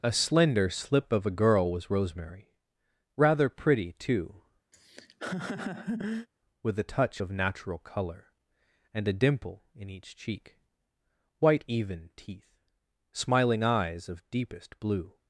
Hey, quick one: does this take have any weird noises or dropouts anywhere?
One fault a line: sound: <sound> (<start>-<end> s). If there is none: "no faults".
sound: laugh (4.7-6.3 s)